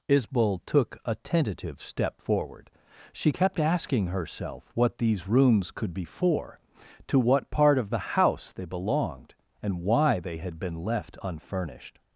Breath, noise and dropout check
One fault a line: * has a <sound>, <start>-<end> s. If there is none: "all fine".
all fine